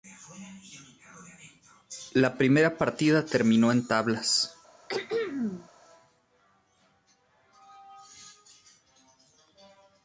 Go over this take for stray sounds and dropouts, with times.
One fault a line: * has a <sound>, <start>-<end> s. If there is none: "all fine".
* has a throat clearing, 4.9-5.7 s